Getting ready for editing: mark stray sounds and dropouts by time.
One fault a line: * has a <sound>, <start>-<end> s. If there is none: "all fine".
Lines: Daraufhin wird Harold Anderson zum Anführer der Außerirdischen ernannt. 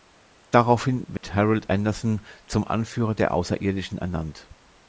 * has a dropout, 1.2-1.2 s